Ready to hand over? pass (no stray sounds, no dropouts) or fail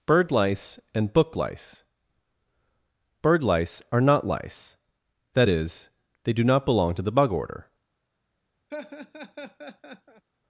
fail